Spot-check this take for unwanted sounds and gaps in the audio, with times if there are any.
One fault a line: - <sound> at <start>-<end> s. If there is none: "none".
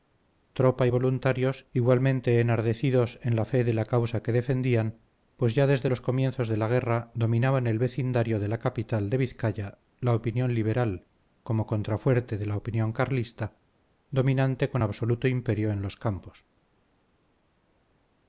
none